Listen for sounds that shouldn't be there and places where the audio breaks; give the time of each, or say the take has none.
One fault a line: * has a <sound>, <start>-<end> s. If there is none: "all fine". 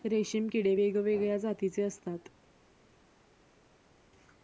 all fine